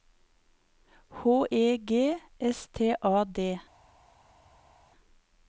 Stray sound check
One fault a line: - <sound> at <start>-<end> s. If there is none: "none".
none